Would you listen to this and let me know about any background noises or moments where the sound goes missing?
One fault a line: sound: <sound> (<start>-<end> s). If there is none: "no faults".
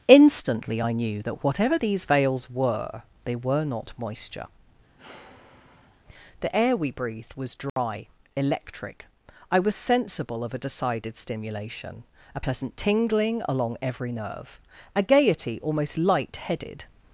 sound: sigh (5.0-6.0 s)
sound: dropout (7.7-7.8 s)